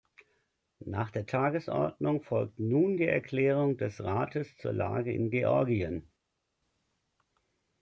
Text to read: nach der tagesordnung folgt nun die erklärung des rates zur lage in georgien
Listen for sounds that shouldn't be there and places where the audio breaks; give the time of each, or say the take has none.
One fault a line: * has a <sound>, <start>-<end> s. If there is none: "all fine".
all fine